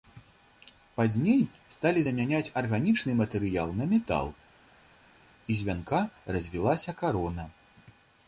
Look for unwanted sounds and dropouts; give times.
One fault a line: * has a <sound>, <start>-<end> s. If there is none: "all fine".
all fine